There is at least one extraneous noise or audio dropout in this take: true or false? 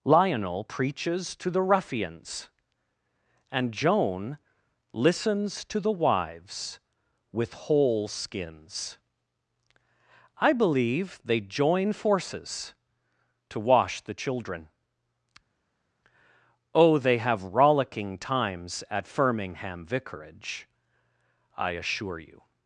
false